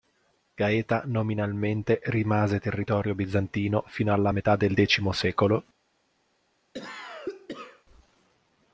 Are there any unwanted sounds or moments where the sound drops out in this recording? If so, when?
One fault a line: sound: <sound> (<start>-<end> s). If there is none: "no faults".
sound: cough (6.7-7.8 s)